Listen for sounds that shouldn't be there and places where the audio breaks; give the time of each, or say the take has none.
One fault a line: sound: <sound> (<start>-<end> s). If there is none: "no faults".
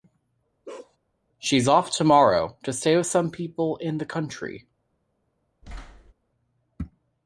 sound: bark (0.6-1.0 s)
sound: thud (5.6-6.1 s)